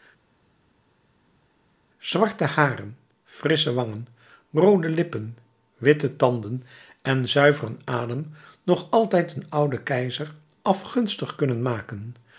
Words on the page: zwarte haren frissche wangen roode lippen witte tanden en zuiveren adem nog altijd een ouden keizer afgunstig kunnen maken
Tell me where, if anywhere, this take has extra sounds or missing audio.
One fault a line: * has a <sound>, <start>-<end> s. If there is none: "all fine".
all fine